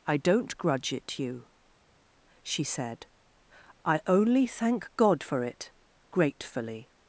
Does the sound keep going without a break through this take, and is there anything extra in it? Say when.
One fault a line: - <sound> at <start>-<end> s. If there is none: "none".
none